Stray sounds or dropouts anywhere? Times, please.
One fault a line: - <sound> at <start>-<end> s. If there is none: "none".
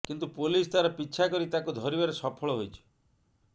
none